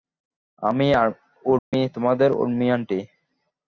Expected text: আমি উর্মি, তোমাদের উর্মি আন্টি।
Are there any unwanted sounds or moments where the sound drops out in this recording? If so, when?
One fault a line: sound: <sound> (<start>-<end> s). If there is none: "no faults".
sound: dropout (1.6-1.7 s)